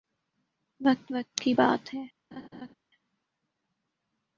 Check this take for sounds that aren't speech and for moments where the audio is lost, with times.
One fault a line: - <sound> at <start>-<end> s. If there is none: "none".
- laugh at 2.3-2.7 s